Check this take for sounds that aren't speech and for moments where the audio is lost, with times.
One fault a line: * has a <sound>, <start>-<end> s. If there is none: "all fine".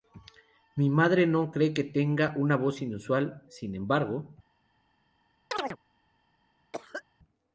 * has a chirp, 5.5-5.8 s
* has a cough, 6.7-7.0 s